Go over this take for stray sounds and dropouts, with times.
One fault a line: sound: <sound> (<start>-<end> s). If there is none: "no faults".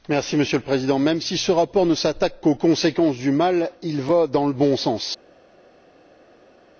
no faults